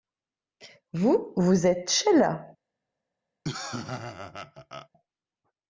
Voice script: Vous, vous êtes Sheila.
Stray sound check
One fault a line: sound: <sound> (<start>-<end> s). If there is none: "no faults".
sound: laugh (3.4-4.9 s)